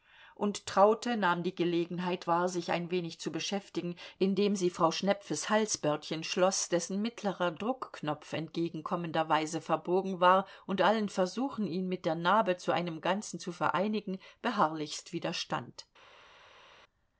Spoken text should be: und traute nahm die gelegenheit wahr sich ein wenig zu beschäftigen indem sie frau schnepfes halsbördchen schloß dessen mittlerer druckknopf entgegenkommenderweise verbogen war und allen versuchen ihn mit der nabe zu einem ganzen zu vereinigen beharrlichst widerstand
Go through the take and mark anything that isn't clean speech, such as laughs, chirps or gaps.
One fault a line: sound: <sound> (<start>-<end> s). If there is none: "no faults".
no faults